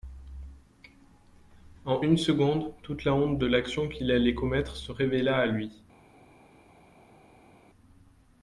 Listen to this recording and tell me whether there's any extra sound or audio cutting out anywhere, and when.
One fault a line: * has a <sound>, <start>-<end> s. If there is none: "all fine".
all fine